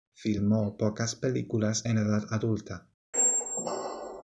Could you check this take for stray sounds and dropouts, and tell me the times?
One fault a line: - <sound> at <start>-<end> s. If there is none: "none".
- squeak at 3.1-4.2 s